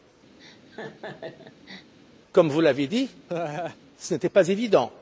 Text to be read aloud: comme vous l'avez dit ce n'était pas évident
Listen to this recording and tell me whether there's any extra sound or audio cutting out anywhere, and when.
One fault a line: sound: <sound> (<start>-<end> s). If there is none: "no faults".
sound: laugh (0.4-1.9 s)
sound: laugh (3.3-3.8 s)